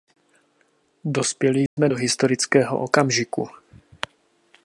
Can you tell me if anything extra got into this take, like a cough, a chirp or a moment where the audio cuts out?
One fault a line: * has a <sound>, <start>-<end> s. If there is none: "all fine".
* has a dropout, 1.7-1.8 s